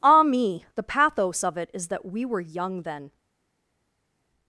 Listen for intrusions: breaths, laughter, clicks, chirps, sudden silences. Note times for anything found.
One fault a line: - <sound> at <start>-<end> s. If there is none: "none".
none